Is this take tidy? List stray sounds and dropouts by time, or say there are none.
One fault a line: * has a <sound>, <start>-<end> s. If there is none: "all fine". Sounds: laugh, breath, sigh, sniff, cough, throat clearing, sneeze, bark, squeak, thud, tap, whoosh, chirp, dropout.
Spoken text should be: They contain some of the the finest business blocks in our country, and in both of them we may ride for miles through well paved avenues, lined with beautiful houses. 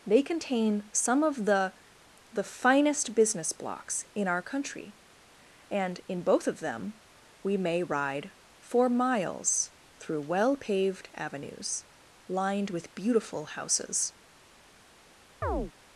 * has a chirp, 15.4-15.7 s